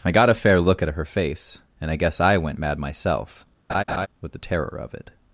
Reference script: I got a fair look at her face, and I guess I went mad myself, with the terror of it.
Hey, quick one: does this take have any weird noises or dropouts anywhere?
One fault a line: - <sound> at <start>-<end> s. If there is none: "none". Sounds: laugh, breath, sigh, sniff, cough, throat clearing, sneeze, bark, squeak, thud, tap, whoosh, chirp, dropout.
- laugh at 3.7-4.1 s